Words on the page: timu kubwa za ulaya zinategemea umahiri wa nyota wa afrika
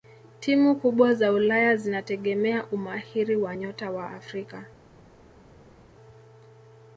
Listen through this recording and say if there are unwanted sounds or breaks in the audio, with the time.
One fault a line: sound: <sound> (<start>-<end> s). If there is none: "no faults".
no faults